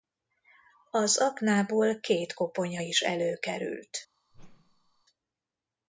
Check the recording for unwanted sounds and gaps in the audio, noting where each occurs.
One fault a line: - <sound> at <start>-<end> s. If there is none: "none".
- whoosh at 4.3-5.0 s